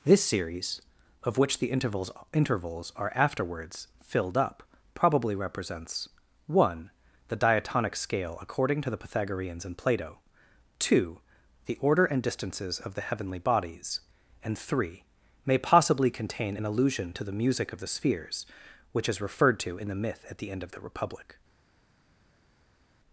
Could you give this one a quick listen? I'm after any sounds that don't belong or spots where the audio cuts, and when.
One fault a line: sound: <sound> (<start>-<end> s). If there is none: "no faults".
no faults